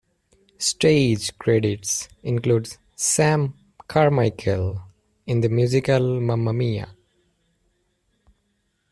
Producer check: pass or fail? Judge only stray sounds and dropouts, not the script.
pass